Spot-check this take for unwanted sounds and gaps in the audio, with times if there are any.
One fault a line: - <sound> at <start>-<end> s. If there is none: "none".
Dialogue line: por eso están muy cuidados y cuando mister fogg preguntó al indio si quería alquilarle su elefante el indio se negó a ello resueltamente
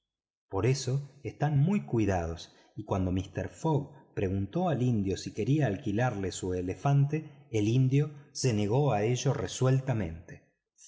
none